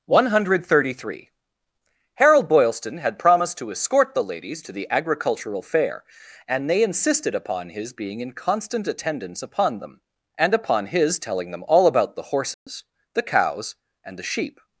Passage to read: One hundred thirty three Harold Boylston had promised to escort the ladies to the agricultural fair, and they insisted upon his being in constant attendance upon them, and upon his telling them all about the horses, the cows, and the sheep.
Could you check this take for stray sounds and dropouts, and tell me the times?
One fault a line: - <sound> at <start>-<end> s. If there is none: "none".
- dropout at 12.5-12.7 s